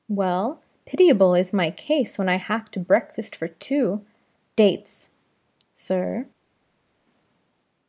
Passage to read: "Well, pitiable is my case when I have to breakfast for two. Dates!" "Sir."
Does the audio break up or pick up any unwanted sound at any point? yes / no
no